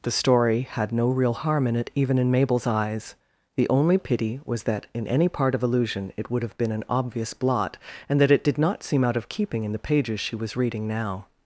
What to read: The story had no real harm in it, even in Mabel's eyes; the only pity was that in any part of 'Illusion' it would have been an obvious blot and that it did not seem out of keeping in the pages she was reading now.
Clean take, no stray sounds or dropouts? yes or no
yes